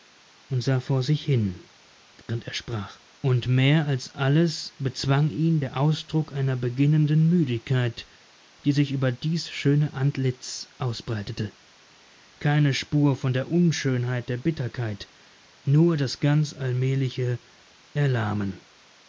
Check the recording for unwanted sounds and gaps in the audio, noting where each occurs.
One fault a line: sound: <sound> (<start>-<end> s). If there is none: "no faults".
sound: dropout (2.2-2.3 s)